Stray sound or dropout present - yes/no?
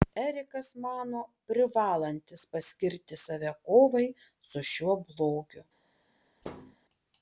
yes